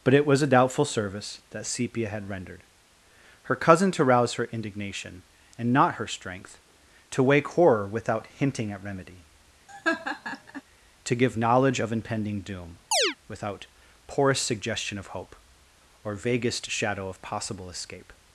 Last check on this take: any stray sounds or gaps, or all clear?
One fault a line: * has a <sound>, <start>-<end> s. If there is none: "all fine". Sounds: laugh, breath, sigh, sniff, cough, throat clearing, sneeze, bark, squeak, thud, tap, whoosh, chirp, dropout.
* has a laugh, 9.7-10.6 s
* has a chirp, 12.9-13.2 s